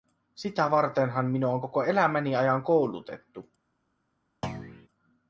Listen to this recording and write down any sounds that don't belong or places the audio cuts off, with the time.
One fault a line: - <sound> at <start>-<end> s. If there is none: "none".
- thud at 4.4-4.9 s